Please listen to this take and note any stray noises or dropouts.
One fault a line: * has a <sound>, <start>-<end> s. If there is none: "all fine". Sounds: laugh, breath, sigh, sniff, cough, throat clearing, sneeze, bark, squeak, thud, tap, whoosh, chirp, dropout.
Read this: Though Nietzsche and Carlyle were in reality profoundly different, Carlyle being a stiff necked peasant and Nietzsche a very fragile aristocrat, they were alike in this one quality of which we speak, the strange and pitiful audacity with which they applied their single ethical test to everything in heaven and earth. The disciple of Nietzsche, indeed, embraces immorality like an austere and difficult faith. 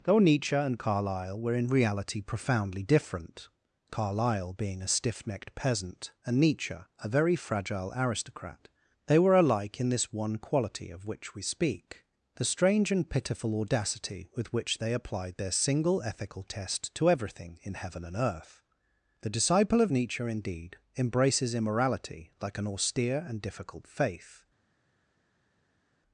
all fine